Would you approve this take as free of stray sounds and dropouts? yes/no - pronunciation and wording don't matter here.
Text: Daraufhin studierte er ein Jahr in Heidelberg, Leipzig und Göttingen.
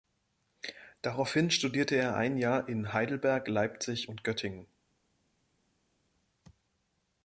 yes